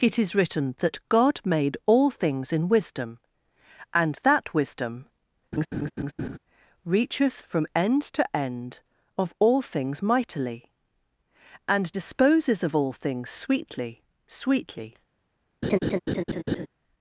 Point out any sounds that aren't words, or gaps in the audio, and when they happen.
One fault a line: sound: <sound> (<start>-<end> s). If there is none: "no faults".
sound: laugh (5.5-6.4 s)
sound: laugh (15.6-16.7 s)